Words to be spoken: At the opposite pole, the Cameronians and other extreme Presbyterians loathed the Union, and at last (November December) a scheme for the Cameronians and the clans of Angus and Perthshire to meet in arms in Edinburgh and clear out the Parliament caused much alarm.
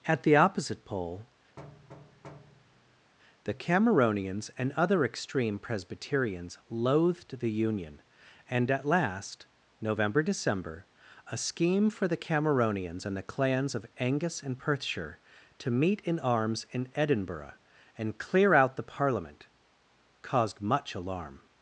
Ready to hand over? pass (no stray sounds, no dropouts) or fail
fail